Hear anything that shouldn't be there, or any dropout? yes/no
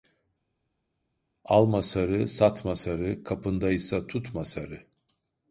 no